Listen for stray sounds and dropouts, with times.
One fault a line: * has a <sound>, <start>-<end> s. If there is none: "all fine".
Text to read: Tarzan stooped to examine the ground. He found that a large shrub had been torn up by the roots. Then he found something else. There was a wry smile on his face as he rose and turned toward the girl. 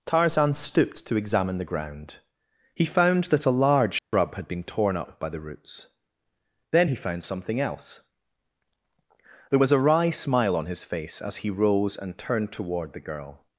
* has a dropout, 4.0-4.1 s